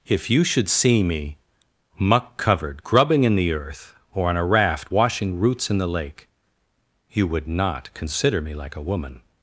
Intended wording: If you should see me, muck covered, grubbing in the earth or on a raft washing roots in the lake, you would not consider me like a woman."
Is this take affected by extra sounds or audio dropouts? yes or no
no